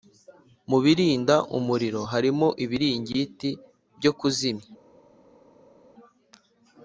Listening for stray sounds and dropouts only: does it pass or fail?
pass